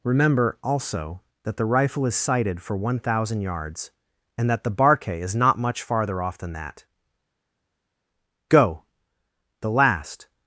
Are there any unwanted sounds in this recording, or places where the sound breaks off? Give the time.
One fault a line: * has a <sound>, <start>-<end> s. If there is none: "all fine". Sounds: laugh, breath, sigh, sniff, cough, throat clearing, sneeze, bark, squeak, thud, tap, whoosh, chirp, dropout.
all fine